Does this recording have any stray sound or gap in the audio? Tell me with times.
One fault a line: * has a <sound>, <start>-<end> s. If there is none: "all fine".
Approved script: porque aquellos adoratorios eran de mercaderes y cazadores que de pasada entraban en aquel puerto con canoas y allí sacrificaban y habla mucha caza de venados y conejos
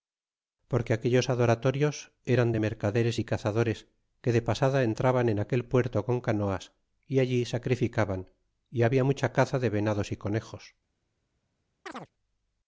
* has a chirp, 11.9-12.1 s